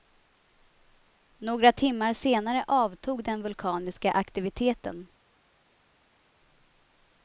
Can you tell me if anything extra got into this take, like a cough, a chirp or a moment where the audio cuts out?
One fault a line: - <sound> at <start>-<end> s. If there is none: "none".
none